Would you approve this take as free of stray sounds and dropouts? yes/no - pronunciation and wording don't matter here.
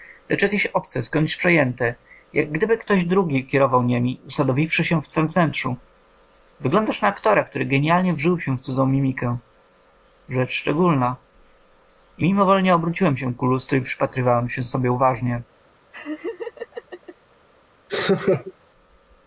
no